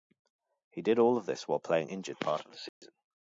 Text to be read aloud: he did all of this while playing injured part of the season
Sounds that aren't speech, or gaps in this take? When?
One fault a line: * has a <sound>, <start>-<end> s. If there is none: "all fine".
* has a dropout, 2.7-2.8 s